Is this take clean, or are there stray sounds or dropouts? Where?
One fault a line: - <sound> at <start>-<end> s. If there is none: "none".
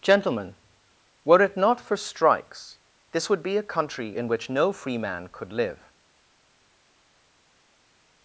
none